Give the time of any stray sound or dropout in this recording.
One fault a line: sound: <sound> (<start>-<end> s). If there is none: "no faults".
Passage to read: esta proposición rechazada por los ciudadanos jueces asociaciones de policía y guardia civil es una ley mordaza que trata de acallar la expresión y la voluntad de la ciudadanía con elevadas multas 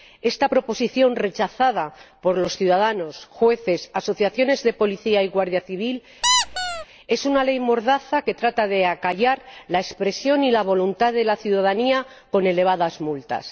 sound: squeak (6.2-6.9 s)